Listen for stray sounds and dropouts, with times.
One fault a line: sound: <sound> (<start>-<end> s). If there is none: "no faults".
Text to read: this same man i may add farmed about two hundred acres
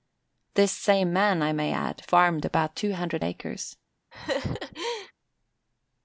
sound: laugh (4.1-5.1 s)